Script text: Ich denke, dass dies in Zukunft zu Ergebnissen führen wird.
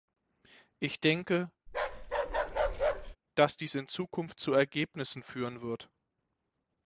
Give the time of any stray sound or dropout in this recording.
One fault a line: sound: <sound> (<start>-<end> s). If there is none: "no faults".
sound: bark (1.7-3.2 s)